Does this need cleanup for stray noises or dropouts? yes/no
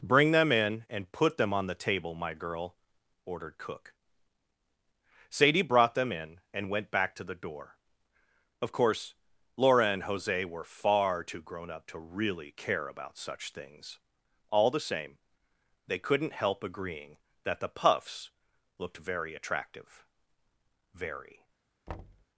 yes